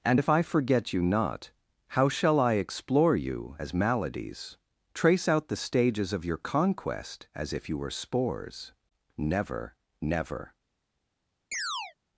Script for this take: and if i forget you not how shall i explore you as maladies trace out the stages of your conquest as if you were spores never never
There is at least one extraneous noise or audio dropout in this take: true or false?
true